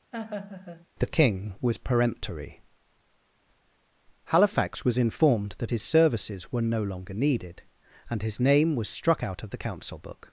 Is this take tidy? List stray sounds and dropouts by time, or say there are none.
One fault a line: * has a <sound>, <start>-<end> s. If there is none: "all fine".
* has a laugh, 0.1-0.9 s